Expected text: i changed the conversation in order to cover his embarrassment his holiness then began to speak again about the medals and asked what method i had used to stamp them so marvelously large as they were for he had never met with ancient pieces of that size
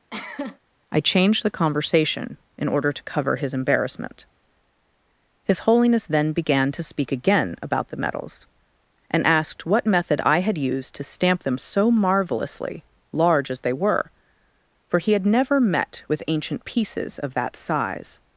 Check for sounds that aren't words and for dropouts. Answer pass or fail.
fail